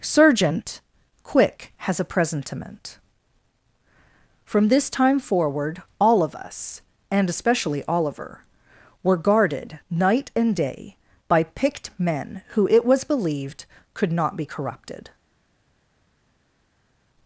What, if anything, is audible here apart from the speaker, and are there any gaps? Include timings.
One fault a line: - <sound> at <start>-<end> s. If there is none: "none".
none